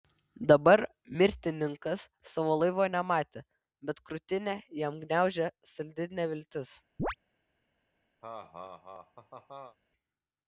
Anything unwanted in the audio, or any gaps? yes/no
yes